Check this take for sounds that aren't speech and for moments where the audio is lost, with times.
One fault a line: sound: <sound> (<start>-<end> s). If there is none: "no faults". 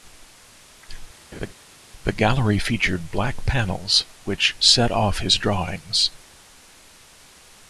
sound: laugh (1.3-1.5 s)